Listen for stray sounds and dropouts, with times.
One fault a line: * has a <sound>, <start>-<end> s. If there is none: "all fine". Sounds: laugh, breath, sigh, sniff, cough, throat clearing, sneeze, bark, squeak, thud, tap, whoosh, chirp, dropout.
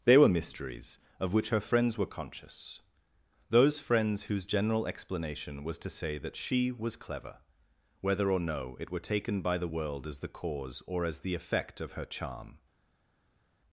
all fine